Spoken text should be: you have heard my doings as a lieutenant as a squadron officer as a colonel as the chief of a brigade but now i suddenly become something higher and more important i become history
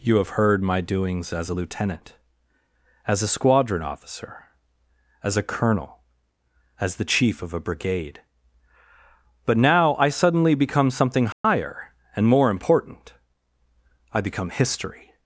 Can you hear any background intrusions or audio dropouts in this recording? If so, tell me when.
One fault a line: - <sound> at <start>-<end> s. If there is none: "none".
- dropout at 11.3-11.4 s